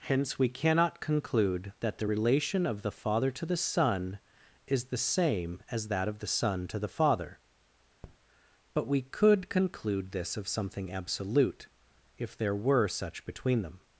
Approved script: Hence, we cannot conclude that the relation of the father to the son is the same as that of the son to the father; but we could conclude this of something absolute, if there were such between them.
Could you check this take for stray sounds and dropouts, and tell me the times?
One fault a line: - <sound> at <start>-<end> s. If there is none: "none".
- tap at 8.0-8.2 s